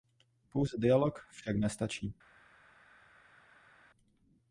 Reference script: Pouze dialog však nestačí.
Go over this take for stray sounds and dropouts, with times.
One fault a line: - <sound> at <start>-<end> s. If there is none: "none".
none